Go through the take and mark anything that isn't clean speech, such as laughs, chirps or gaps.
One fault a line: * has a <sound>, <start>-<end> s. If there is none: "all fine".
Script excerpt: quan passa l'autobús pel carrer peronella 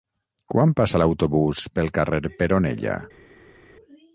all fine